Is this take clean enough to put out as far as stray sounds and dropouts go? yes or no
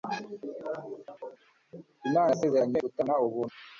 yes